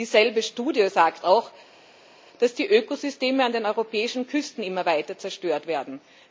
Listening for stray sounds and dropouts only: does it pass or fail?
pass